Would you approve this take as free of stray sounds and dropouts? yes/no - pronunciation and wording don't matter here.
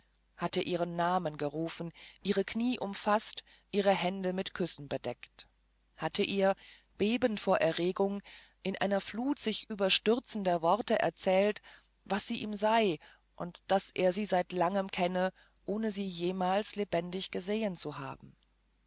yes